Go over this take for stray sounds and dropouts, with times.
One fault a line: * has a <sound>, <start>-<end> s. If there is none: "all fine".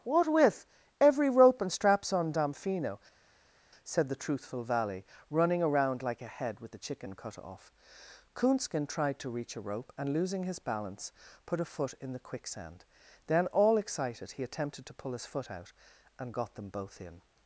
all fine